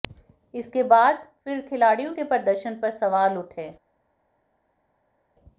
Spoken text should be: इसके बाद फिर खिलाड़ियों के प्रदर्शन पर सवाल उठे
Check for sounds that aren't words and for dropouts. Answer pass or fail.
pass